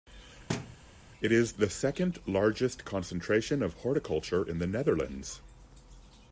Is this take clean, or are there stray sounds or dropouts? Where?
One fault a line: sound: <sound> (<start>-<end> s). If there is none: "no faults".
sound: thud (0.5-0.8 s)